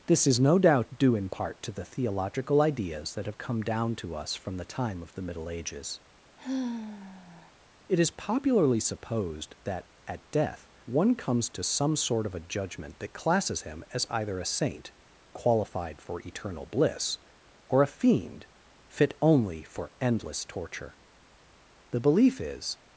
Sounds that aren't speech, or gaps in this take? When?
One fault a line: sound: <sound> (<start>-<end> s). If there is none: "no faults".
sound: sigh (6.4-7.5 s)